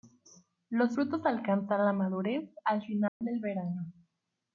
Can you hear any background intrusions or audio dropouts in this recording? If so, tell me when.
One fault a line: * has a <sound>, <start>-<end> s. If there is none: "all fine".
* has a dropout, 3.1-3.2 s